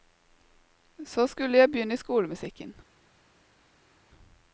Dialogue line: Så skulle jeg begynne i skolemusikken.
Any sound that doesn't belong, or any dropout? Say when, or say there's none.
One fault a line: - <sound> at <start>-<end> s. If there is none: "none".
none